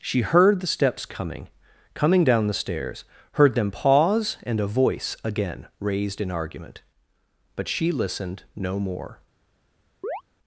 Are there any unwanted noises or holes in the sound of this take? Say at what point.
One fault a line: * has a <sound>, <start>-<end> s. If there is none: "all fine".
* has a chirp, 10.0-10.2 s